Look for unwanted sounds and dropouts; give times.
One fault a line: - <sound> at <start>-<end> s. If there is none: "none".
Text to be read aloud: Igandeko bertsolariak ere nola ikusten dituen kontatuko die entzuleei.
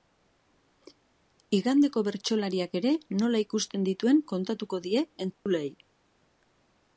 - dropout at 5.3-5.5 s